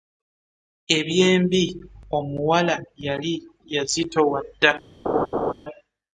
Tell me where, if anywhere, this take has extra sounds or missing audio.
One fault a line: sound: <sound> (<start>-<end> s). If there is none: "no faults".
sound: laugh (5.0-5.5 s)